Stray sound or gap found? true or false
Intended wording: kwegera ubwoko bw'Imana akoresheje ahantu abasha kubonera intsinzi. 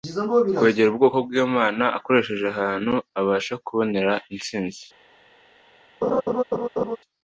true